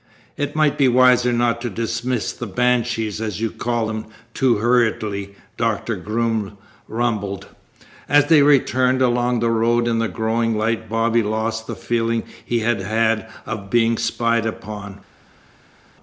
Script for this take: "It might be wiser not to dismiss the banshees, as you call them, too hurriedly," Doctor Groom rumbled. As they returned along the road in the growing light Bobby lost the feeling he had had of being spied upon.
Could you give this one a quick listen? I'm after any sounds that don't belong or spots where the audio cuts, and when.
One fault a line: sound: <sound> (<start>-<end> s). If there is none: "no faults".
no faults